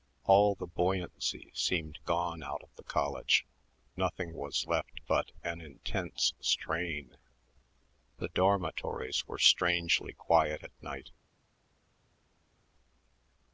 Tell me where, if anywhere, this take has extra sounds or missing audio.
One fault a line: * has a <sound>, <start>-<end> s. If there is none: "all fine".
all fine